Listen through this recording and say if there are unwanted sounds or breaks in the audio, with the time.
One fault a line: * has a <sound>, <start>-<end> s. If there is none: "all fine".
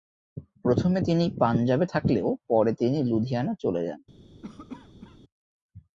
* has a cough, 4.4-5.2 s